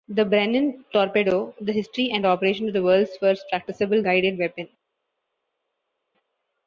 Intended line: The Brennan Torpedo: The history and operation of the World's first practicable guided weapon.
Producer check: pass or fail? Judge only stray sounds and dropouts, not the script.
pass